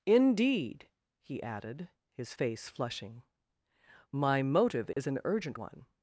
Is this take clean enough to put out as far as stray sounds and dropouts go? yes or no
no